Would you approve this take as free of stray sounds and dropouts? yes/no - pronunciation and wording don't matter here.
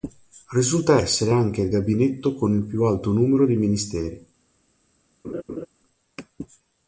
no